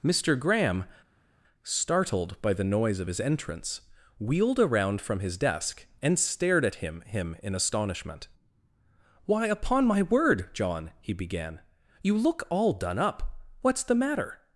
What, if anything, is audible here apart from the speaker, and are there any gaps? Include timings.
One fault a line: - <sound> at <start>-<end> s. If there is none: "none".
none